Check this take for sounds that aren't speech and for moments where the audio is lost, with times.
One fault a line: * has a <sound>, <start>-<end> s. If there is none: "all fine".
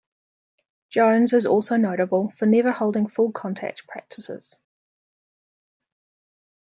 all fine